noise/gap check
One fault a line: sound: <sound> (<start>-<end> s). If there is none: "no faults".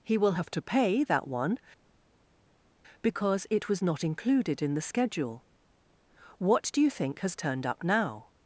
no faults